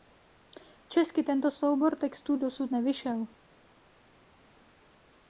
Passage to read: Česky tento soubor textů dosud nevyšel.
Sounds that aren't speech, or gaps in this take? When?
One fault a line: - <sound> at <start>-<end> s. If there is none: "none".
none